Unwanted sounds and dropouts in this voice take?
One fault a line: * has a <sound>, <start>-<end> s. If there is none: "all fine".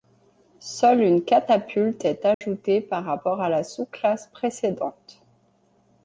* has a dropout, 2.3-2.4 s